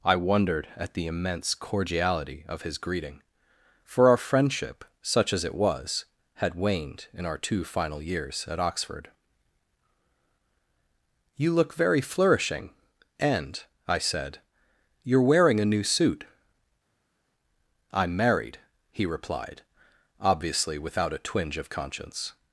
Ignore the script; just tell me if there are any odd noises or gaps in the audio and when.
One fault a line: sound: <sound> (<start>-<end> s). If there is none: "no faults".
no faults